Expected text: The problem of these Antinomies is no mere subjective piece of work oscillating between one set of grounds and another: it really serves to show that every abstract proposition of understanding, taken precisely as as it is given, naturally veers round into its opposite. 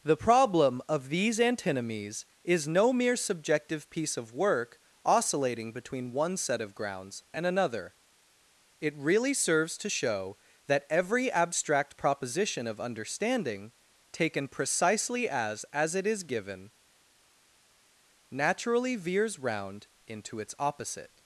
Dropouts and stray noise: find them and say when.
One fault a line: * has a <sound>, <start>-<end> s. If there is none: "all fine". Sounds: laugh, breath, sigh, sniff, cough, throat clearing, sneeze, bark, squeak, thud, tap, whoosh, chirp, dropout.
all fine